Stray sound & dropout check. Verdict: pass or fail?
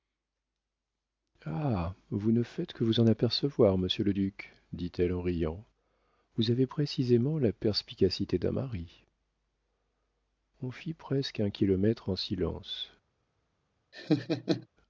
fail